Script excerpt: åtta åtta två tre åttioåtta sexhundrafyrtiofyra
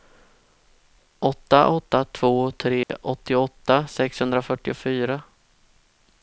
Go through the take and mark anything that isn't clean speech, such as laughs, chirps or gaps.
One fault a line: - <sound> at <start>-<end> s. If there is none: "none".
- dropout at 2.8-2.9 s